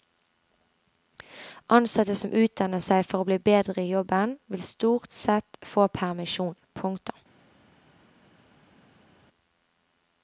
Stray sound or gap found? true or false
false